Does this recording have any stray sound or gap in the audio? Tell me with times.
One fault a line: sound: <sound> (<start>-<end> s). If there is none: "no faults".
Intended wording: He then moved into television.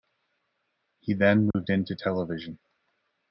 sound: dropout (1.5-1.5 s)